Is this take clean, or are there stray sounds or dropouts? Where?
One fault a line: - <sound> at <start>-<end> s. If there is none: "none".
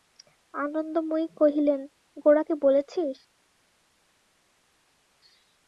none